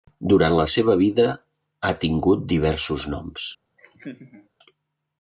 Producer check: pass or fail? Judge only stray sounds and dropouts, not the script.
fail